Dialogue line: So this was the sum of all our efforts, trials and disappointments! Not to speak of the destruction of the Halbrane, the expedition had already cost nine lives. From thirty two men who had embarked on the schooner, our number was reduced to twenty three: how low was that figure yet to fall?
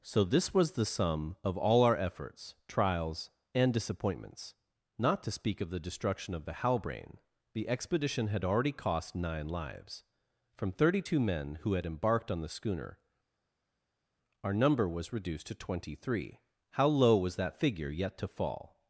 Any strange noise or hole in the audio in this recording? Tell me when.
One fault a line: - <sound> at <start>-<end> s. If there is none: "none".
none